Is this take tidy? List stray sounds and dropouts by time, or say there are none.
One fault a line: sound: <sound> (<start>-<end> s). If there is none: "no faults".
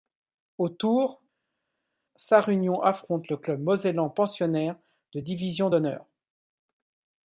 no faults